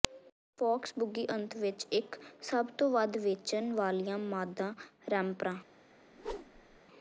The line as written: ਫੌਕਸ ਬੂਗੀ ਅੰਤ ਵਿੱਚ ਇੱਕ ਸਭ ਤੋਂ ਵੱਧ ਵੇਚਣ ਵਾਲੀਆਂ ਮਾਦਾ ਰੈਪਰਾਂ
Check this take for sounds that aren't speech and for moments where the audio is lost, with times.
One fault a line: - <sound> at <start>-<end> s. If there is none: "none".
- whoosh at 6.1-6.8 s